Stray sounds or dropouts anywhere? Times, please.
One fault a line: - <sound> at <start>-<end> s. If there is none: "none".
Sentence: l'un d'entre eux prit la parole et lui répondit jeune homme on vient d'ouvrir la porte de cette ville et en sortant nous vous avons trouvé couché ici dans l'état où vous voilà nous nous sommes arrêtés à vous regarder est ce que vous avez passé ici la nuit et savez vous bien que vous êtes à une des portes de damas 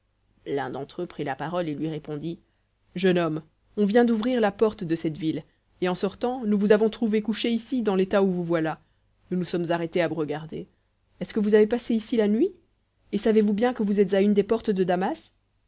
none